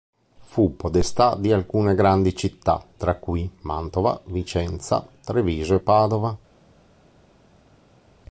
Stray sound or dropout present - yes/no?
no